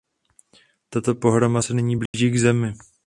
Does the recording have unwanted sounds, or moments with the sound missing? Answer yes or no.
yes